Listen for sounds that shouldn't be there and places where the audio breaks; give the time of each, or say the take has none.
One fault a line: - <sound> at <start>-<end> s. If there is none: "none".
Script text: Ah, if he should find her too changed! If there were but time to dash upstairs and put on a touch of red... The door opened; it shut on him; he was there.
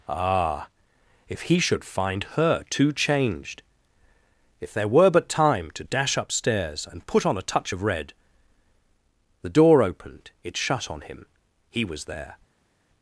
none